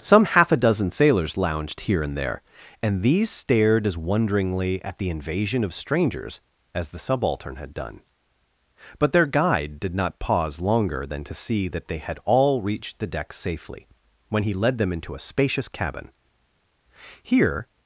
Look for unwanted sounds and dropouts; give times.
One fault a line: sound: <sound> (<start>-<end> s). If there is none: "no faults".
no faults